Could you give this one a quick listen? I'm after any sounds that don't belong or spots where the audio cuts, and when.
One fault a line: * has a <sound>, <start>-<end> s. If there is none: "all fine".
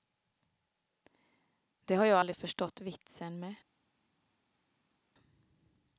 all fine